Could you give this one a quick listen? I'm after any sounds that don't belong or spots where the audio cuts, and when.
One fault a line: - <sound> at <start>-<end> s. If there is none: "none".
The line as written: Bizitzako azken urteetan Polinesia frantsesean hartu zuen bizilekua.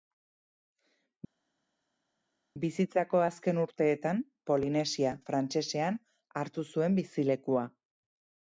none